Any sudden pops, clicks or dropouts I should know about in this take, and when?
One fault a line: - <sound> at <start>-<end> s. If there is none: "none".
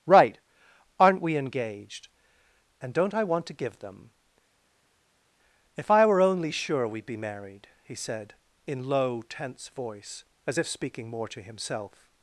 none